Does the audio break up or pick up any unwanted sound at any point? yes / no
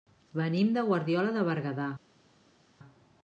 no